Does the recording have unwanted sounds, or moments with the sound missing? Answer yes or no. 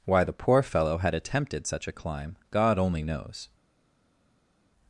no